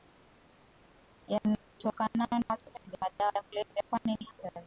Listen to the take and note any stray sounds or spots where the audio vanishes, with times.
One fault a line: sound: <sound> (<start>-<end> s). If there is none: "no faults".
no faults